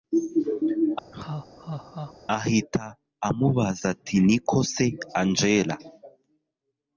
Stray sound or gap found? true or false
true